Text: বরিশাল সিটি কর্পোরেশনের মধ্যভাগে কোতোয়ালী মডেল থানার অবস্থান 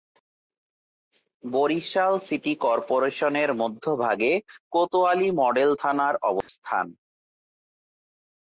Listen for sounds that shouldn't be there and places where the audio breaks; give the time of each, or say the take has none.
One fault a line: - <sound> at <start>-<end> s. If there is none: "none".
- dropout at 6.4-6.5 s